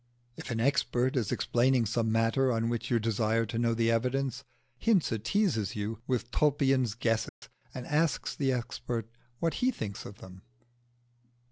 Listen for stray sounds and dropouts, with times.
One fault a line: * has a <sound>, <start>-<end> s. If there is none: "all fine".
* has a dropout, 7.3-7.4 s